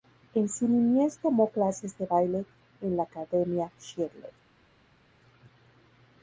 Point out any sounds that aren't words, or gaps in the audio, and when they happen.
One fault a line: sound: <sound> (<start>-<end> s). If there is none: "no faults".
no faults